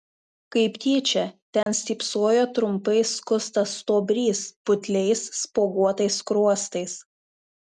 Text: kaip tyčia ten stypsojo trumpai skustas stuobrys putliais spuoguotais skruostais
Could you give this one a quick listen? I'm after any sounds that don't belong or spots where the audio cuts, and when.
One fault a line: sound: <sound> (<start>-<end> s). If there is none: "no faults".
sound: dropout (1.6-1.7 s)